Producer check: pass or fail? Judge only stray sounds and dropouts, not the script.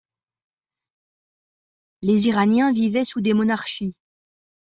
pass